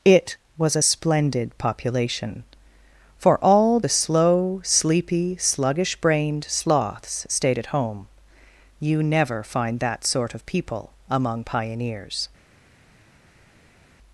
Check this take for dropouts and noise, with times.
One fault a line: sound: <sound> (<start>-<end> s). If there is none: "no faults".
no faults